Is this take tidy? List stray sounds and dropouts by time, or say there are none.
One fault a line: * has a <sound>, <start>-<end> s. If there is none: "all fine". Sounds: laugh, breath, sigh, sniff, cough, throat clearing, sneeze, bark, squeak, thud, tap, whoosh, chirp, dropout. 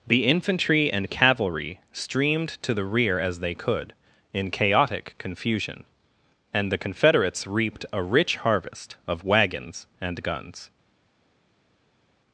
all fine